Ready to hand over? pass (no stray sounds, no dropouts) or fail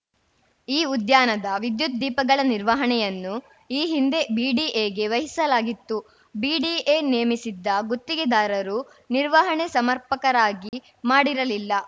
fail